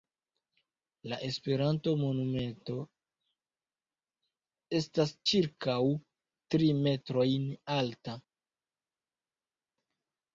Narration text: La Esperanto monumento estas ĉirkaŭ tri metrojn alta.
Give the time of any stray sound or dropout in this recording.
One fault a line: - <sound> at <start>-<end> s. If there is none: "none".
none